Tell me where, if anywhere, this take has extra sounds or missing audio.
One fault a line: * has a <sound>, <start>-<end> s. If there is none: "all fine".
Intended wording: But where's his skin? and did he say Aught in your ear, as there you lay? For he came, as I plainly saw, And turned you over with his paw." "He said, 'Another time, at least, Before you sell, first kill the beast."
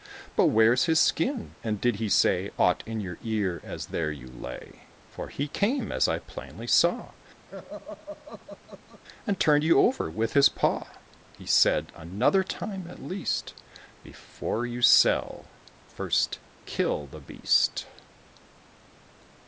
* has a laugh, 7.5-9.0 s